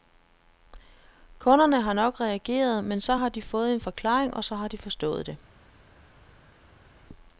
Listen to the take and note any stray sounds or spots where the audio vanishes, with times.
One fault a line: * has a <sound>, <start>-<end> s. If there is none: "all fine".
all fine